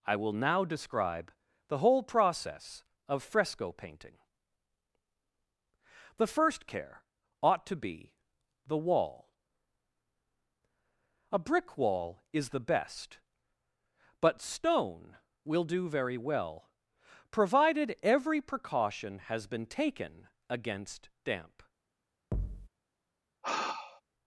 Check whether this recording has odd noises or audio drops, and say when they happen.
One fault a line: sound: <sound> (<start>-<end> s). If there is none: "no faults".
sound: thud (22.3-22.7 s)
sound: sigh (23.4-24.0 s)